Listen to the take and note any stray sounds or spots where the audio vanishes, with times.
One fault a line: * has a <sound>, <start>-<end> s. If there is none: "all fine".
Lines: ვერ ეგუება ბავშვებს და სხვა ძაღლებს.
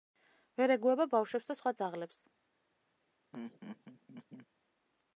* has a laugh, 3.3-4.5 s